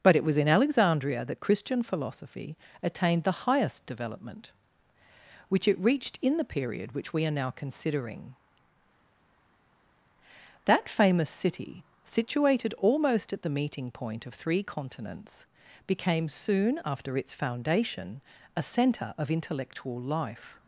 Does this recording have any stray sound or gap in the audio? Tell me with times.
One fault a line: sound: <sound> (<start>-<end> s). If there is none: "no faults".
no faults